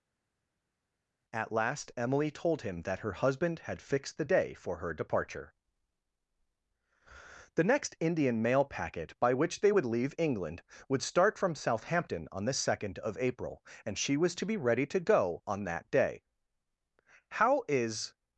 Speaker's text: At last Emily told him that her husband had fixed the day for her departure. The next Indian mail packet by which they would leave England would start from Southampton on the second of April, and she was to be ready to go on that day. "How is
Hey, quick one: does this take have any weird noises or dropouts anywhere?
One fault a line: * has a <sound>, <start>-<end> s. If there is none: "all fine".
all fine